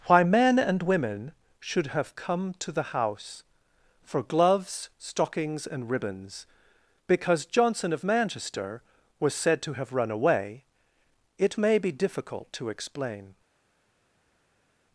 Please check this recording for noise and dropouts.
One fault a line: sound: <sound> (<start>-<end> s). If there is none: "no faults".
no faults